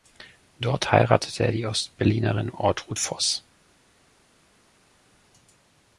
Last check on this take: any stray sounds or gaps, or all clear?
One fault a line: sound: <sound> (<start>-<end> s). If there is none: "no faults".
no faults